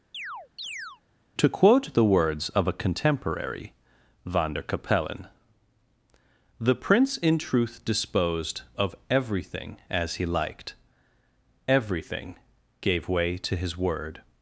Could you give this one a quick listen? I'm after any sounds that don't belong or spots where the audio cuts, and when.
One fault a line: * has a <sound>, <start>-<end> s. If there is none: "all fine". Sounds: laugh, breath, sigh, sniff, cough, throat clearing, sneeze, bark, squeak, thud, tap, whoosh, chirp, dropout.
* has a chirp, 0.1-1.0 s